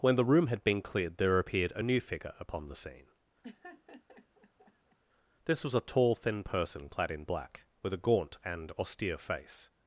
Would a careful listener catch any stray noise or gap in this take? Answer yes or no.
yes